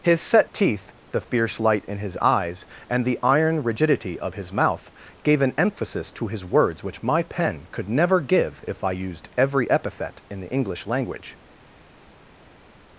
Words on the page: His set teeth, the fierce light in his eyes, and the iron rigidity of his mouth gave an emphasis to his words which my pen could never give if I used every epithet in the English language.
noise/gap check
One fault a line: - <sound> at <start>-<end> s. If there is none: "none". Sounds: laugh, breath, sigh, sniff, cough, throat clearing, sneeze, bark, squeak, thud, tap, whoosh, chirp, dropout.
none